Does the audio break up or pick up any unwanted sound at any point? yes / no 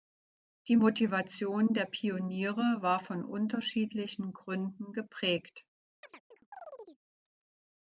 yes